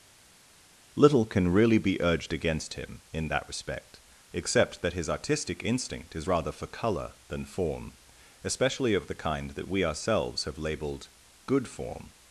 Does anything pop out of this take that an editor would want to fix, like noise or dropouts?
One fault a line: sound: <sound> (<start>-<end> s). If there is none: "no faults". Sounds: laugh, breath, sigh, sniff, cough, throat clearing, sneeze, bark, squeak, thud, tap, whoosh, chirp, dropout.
no faults